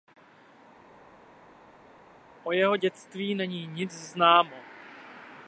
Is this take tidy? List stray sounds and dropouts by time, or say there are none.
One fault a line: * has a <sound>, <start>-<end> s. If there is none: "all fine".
all fine